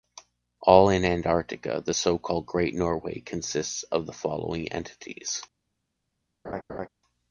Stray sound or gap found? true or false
true